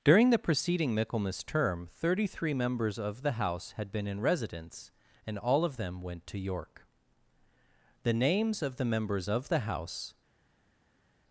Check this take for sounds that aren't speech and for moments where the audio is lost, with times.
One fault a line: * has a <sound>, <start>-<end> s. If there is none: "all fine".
all fine